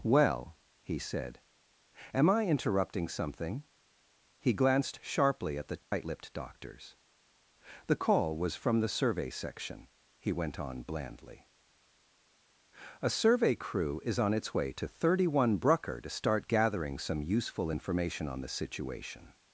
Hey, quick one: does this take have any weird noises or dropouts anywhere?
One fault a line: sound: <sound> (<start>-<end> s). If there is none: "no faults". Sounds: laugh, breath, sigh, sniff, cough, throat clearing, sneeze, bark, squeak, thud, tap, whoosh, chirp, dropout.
sound: dropout (5.8-5.9 s)